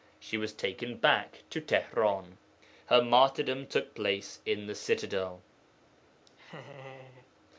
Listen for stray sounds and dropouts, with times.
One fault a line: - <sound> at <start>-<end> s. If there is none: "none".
- laugh at 6.3-7.3 s